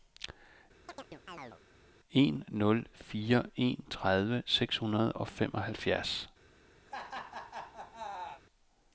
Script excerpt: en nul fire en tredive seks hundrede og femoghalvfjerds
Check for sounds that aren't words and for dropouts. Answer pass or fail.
fail